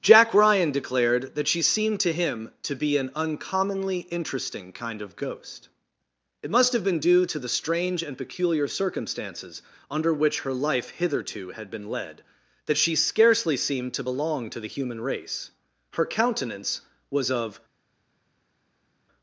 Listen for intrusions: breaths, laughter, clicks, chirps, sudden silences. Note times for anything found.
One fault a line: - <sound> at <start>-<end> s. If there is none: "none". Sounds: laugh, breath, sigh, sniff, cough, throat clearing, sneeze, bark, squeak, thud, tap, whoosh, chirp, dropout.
none